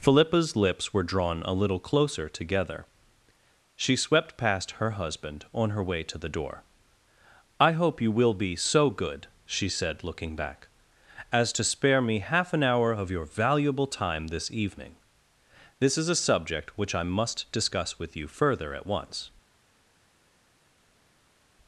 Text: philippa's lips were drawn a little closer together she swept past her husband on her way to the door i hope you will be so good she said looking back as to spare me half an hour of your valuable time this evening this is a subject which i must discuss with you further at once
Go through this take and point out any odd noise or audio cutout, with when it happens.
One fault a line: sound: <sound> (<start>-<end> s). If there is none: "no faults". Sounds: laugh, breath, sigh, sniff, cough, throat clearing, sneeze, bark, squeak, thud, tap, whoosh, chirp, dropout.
no faults